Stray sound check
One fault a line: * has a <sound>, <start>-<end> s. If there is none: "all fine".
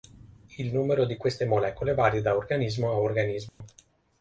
* has a dropout, 3.5-3.6 s